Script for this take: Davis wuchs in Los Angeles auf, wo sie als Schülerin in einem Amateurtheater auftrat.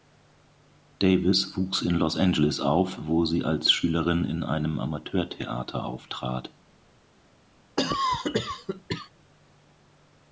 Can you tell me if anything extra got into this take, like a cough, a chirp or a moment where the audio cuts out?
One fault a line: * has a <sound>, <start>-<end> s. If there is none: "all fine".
* has a cough, 7.8-9.1 s